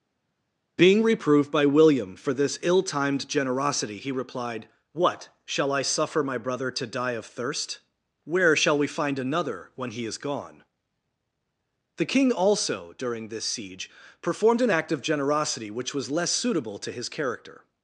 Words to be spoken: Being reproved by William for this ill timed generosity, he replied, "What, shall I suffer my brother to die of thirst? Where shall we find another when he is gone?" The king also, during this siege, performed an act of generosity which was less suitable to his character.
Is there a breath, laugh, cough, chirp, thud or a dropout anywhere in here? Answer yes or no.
no